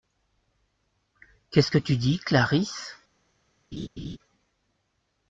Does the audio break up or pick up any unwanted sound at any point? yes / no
yes